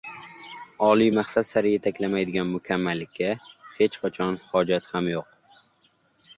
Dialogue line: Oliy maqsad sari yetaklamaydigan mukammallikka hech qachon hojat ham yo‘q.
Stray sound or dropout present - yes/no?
no